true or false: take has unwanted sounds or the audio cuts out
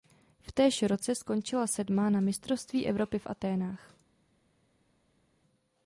false